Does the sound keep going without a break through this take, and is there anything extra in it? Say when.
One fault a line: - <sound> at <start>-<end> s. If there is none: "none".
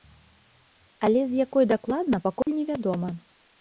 - dropout at 2.4-2.5 s